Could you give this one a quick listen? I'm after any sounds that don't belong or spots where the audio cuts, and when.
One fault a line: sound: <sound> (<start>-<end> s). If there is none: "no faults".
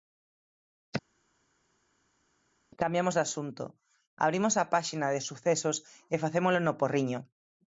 no faults